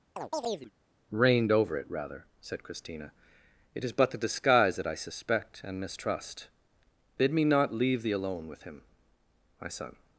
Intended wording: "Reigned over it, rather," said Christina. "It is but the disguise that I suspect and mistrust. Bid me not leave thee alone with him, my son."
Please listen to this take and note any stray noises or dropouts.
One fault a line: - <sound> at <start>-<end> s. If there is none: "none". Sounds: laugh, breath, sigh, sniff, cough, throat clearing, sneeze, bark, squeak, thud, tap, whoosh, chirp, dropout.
- chirp at 0.2-0.7 s